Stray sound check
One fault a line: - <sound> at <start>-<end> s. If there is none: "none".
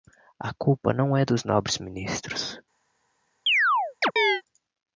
- chirp at 3.5-4.4 s